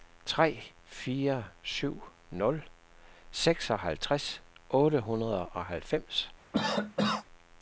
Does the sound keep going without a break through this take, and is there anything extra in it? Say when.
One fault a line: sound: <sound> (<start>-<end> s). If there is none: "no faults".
sound: cough (6.5-7.2 s)